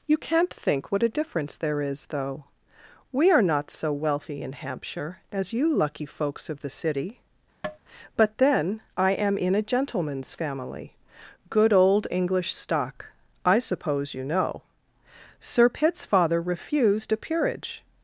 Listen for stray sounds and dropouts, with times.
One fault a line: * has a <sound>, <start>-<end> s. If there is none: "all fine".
* has a tap, 7.6-7.8 s